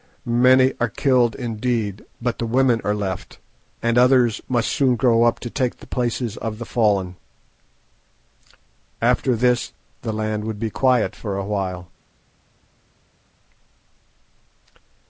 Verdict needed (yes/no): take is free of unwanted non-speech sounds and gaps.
yes